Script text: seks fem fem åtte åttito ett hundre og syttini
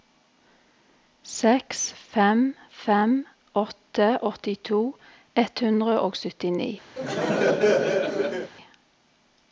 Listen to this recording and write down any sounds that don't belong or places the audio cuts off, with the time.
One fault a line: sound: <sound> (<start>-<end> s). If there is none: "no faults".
sound: laugh (7.0-8.5 s)